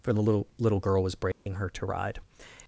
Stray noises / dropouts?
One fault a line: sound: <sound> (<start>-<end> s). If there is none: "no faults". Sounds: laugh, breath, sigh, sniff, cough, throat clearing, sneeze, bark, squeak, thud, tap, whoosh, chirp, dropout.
sound: dropout (1.3-1.5 s)